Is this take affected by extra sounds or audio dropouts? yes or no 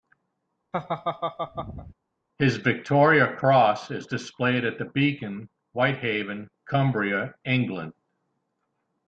yes